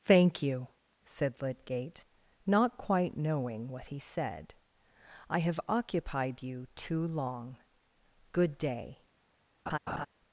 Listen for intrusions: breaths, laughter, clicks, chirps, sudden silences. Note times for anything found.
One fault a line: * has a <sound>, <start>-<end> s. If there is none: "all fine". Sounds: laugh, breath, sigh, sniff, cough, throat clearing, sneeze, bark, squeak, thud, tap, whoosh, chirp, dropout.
* has a laugh, 9.7-10.1 s